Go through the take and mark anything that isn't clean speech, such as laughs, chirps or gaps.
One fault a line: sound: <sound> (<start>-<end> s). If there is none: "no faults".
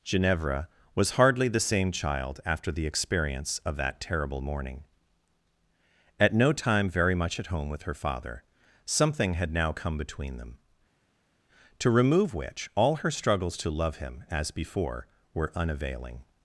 no faults